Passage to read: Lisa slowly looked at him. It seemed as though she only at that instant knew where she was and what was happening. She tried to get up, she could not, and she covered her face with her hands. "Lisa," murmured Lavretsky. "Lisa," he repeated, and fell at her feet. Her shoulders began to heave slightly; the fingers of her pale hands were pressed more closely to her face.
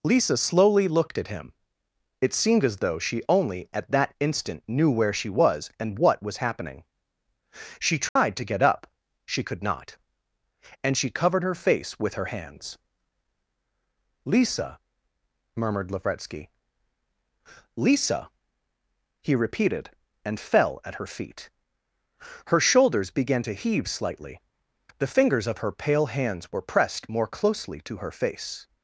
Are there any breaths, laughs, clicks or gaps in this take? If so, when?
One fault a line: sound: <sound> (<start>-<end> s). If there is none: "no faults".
sound: dropout (8.1-8.2 s)